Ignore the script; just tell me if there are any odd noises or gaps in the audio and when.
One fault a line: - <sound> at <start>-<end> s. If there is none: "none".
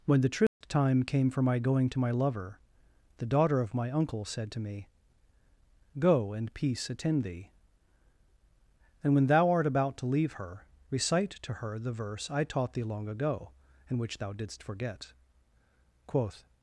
- dropout at 0.5-0.6 s